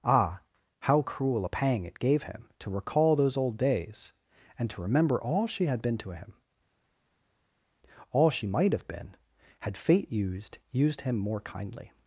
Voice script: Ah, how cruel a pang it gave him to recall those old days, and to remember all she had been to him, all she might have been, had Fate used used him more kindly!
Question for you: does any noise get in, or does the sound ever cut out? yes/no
no